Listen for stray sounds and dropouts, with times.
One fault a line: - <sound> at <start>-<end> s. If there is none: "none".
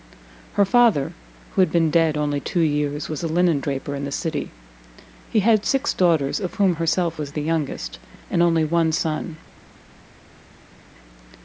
none